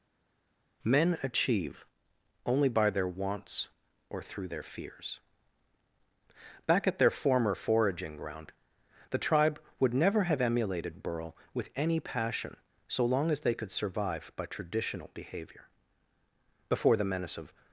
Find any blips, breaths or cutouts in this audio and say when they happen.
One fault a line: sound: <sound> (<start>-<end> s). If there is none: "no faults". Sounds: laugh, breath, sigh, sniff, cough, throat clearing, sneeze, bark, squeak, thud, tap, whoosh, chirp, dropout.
no faults